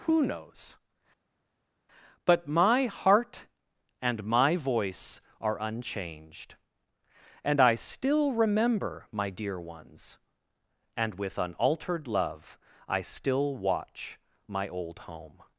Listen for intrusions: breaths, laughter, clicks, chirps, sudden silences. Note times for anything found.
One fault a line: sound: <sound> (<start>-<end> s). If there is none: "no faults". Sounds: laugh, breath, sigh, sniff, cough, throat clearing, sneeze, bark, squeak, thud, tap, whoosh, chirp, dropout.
no faults